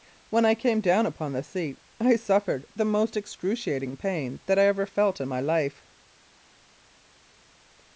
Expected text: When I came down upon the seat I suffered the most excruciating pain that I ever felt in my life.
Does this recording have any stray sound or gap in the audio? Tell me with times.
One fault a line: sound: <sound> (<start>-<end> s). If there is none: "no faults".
no faults